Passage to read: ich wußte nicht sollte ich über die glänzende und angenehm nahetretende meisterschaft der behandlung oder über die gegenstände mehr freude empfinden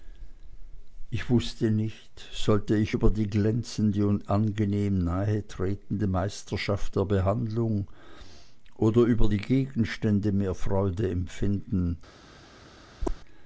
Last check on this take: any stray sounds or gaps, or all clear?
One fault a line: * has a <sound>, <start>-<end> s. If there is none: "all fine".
* has a chirp, 13.0-13.2 s